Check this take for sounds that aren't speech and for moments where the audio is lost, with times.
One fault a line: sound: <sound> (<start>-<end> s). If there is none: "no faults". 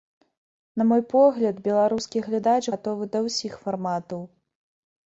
no faults